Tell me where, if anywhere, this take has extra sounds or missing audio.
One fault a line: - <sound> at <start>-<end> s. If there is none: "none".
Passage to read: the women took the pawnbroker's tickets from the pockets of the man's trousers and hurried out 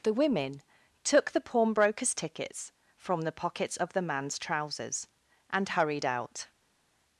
none